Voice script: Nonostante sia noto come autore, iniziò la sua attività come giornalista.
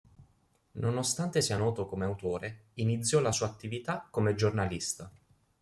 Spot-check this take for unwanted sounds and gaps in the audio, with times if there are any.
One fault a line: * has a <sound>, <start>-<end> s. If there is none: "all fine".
all fine